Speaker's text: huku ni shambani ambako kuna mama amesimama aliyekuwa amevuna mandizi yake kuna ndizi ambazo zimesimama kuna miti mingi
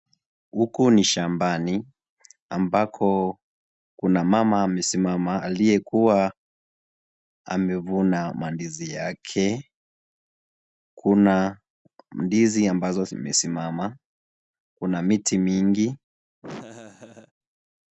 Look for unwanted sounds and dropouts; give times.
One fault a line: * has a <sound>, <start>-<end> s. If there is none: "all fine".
* has a laugh, 16.4-17.3 s